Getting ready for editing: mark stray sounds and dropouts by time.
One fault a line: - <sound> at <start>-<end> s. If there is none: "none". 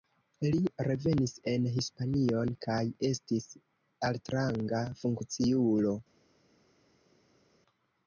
none